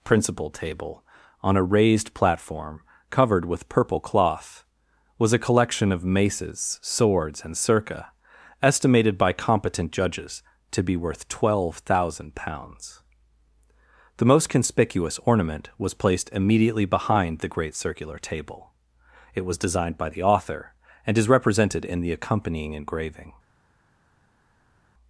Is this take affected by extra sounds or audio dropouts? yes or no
no